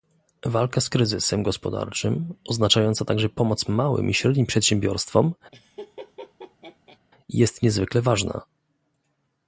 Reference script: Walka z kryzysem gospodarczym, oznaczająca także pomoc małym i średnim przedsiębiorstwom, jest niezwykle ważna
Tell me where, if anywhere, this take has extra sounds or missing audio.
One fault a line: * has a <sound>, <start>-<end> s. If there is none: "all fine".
* has a laugh, 5.5-7.0 s